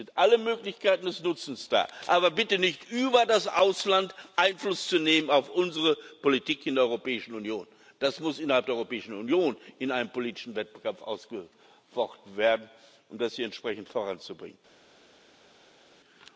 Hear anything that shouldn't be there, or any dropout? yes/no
no